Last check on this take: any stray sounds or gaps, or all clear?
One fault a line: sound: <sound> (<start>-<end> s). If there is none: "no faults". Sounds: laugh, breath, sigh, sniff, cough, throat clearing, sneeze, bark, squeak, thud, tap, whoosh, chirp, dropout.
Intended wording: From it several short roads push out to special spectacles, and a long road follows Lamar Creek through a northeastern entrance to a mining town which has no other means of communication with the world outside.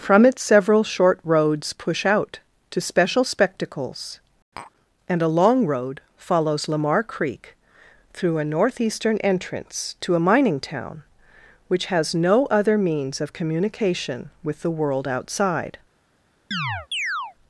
sound: tap (4.6-4.7 s)
sound: chirp (16.5-17.4 s)